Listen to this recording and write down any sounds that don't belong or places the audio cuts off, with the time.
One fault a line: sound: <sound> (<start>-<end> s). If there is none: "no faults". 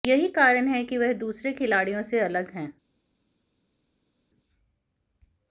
no faults